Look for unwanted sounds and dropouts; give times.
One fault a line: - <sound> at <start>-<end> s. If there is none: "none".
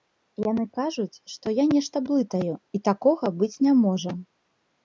none